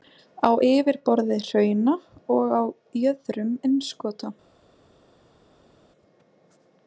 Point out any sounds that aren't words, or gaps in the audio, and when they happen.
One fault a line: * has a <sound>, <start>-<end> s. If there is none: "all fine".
all fine